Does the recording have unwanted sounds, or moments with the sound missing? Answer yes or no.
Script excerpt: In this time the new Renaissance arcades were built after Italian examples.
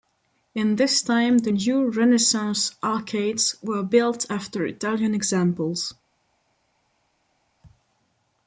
no